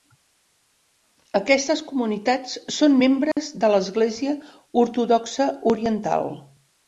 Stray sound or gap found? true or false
true